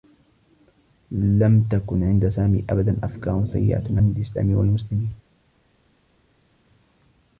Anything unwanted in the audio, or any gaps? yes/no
no